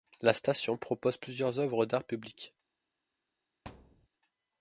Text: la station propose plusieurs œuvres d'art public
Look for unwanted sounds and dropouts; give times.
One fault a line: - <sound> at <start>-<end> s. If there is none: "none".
- thud at 3.6-4.1 s